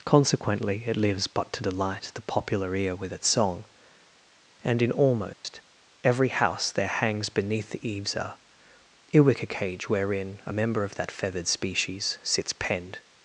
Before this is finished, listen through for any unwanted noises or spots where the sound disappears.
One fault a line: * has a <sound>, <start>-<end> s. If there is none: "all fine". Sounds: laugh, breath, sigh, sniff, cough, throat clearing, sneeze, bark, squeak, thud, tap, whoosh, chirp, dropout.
* has a dropout, 5.3-5.4 s